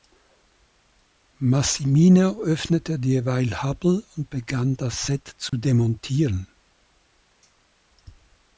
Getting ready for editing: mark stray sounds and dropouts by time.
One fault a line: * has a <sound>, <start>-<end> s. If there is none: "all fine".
* has a dropout, 5.5-5.5 s